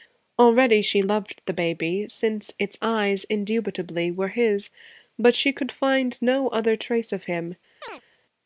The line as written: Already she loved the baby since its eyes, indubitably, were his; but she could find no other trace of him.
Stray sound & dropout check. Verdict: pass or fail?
fail